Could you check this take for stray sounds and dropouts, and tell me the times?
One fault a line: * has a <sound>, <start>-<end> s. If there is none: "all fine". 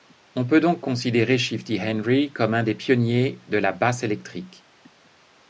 all fine